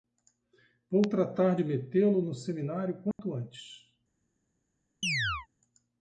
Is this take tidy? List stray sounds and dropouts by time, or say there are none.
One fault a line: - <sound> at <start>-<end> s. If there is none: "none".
- dropout at 3.1-3.2 s
- chirp at 5.0-5.5 s